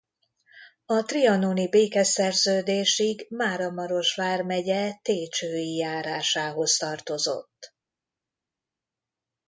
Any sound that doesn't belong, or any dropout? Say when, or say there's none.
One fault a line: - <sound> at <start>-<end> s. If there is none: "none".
none